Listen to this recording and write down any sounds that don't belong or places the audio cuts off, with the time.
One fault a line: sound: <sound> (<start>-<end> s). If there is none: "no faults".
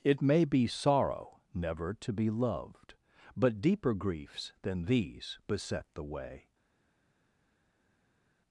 no faults